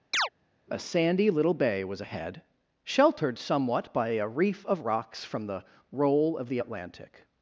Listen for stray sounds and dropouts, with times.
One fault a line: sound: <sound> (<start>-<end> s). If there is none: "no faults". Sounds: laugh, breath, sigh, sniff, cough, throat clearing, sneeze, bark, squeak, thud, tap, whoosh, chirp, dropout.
sound: chirp (0.1-0.3 s)